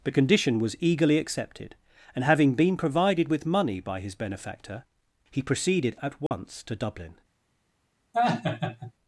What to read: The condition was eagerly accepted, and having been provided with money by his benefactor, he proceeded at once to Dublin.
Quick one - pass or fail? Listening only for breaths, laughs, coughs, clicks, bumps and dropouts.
fail